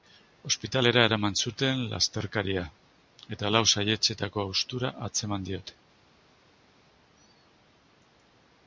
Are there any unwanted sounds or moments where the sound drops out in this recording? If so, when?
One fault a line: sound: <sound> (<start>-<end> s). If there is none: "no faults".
no faults